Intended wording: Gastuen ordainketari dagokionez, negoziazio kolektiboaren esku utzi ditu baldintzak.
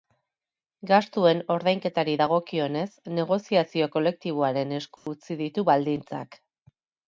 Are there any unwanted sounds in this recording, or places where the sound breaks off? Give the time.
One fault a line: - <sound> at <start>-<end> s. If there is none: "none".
- dropout at 5.0-5.1 s